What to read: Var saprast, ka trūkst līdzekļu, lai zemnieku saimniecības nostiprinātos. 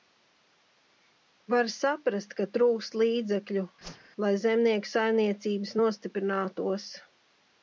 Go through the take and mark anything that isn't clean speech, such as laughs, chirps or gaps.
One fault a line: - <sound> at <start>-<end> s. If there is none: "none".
- whoosh at 3.8-4.1 s